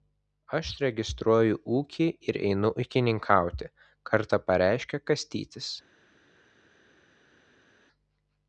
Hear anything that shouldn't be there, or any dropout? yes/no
no